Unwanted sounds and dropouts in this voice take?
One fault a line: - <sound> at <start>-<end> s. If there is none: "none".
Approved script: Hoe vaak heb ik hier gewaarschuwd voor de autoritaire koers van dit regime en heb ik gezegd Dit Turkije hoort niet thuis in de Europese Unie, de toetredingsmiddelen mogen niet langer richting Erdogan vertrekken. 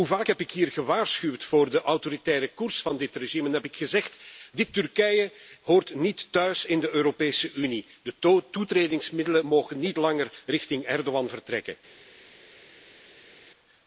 none